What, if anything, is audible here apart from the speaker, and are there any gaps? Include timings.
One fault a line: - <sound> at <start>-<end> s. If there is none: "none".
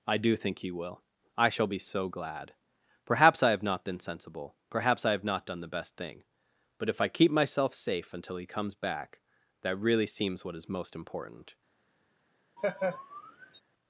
- laugh at 12.6-13.6 s